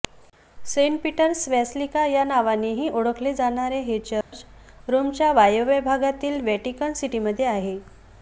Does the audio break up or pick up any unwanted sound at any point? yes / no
yes